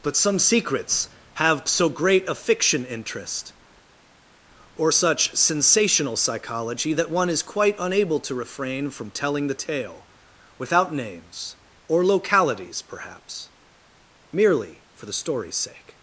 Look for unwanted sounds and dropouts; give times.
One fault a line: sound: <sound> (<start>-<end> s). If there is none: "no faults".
no faults